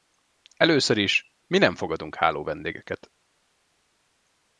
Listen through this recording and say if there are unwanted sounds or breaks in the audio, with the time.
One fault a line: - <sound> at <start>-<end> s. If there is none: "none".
none